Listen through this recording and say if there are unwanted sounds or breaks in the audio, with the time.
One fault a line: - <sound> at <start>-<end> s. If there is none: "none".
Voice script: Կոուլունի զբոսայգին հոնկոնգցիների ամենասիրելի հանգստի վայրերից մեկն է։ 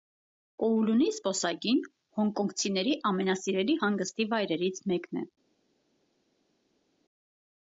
none